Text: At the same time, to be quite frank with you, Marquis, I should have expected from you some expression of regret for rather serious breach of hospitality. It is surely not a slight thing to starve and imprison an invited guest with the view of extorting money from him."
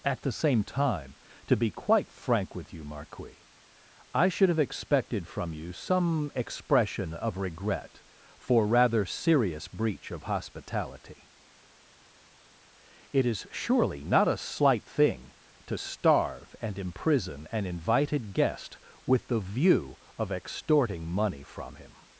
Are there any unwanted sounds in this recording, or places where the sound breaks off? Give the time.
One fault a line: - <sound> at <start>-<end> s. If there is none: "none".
none